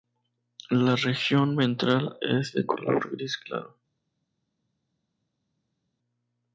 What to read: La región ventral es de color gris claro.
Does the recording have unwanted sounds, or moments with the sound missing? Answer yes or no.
no